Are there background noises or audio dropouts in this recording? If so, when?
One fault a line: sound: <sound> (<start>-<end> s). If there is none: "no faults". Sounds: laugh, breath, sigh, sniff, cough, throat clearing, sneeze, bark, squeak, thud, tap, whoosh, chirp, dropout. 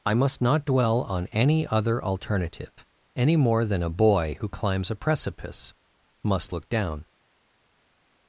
no faults